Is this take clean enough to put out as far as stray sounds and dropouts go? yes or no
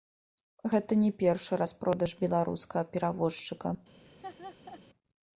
no